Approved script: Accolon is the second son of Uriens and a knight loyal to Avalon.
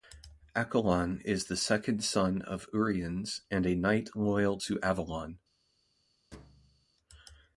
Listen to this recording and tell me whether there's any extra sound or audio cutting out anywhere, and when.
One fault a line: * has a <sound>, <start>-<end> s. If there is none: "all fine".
* has a thud, 6.3-6.9 s